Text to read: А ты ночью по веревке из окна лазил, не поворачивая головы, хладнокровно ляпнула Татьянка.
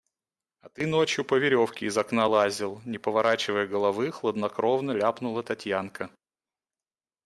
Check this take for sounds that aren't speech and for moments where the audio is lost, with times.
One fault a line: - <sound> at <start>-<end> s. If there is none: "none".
none